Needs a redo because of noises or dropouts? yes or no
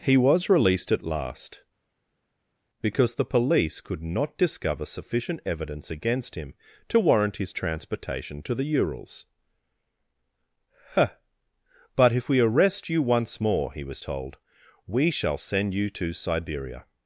no